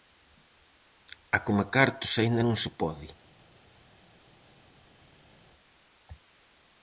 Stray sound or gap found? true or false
false